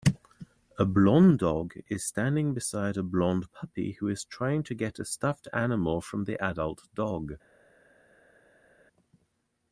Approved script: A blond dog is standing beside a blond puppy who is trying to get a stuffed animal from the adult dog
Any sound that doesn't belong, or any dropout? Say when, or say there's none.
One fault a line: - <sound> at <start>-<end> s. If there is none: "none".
none